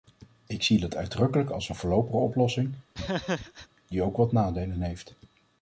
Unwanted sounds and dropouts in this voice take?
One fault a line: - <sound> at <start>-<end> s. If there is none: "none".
- laugh at 2.9-3.7 s